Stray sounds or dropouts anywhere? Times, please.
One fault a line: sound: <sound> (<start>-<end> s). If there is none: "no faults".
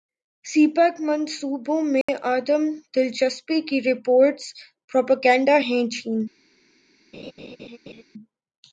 sound: dropout (2.0-2.1 s)
sound: laugh (7.1-8.0 s)